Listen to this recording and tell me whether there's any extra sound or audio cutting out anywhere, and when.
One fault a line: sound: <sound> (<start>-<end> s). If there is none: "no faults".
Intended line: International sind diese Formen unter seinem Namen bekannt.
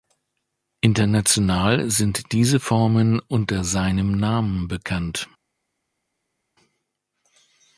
no faults